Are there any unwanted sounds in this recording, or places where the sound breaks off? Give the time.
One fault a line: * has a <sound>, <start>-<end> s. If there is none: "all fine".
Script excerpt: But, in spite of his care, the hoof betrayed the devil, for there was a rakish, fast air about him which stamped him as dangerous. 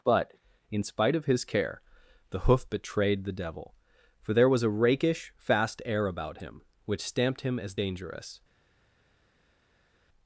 all fine